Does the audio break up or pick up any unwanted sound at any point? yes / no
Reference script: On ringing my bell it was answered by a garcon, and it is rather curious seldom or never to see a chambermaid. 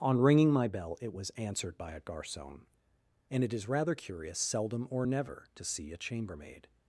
no